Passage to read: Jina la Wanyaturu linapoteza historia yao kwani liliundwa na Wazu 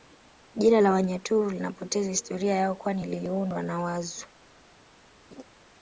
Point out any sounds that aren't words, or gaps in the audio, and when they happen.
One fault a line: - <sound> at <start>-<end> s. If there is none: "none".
- laugh at 5.3-5.4 s